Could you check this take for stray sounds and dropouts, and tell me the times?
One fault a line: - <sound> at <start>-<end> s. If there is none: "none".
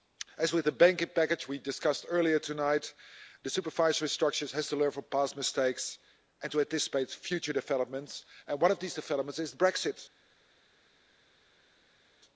none